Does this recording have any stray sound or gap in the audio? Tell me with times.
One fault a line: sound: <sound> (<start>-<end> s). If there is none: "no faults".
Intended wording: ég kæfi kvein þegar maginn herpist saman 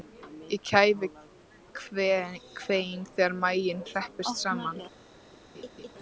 sound: laugh (5.5-5.9 s)